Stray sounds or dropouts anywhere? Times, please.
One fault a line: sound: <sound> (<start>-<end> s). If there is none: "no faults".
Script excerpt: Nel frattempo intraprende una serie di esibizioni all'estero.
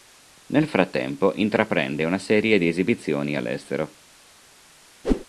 sound: whoosh (5.0-5.3 s)